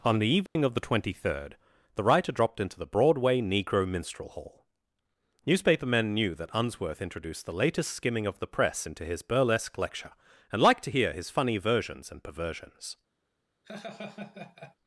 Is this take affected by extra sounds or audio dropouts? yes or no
yes